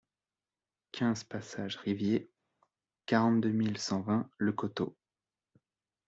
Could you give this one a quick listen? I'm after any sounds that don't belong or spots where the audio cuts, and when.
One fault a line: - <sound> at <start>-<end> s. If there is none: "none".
none